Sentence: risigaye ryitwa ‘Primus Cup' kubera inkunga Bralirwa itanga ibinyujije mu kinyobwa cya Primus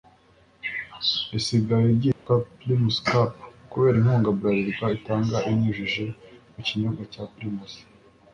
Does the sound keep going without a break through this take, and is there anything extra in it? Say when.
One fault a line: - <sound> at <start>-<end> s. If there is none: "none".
- dropout at 2.1-2.3 s